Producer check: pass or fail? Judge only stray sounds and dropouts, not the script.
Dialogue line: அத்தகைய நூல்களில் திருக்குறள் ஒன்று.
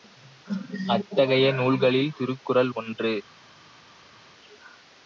pass